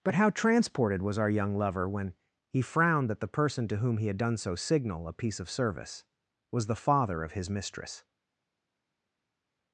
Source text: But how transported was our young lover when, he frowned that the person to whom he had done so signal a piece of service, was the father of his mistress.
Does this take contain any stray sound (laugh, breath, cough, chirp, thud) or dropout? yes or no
no